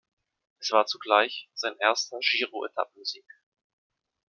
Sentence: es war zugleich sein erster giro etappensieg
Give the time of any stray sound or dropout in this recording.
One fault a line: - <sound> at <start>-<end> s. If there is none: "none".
none